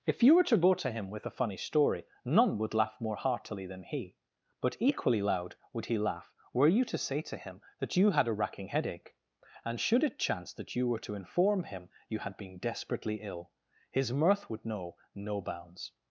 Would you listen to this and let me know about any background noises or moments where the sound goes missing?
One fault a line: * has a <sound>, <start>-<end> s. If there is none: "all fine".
all fine